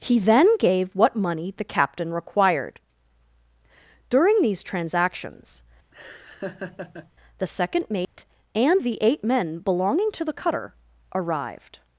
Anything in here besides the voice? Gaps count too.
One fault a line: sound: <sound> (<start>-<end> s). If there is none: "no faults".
sound: laugh (5.9-7.1 s)
sound: dropout (8.0-8.2 s)